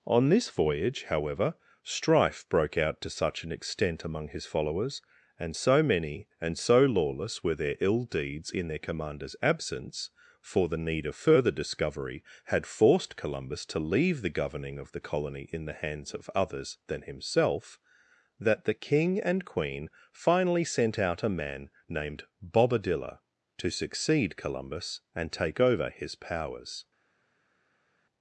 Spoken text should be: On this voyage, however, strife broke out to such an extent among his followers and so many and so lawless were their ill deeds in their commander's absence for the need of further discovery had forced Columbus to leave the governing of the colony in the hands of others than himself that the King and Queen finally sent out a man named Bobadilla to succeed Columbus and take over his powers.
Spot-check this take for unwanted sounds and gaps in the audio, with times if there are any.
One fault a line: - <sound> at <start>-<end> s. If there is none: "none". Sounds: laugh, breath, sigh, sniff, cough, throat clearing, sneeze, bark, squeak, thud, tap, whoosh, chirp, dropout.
none